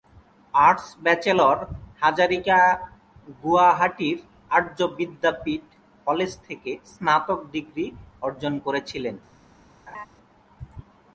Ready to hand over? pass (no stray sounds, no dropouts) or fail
fail